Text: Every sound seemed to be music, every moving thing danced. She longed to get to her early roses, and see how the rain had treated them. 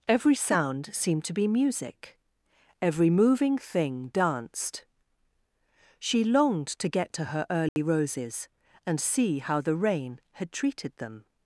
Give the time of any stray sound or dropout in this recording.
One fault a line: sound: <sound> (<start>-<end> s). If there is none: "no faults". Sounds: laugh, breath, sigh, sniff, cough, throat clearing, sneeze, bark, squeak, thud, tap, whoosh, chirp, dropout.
sound: dropout (7.7-7.8 s)